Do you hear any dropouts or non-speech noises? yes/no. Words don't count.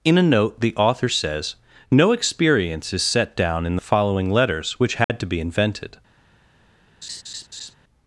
yes